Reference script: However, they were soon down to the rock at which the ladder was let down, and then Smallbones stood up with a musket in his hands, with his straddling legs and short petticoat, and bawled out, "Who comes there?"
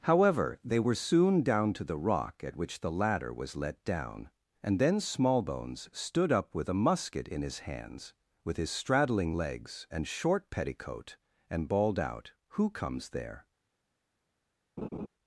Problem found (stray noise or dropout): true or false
true